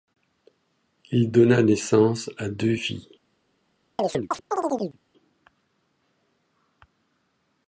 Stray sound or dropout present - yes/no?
yes